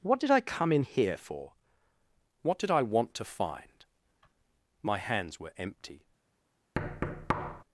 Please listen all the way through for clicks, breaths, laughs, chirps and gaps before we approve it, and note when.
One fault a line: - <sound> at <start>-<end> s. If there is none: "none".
- thud at 6.8-7.6 s